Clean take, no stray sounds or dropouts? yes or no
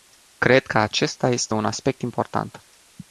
yes